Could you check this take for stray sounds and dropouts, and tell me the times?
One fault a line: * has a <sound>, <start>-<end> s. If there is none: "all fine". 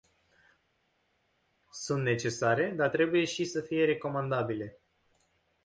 all fine